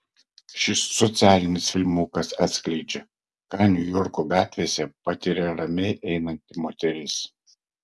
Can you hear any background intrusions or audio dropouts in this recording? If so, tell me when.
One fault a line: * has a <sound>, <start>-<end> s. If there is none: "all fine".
all fine